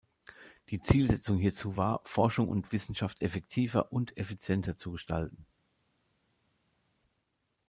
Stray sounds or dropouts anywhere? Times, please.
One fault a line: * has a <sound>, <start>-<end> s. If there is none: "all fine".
all fine